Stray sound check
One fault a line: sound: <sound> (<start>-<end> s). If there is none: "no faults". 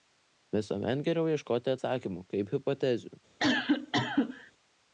sound: cough (3.4-4.5 s)